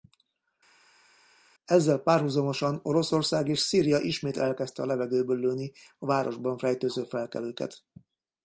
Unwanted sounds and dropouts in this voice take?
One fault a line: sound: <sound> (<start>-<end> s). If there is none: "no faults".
no faults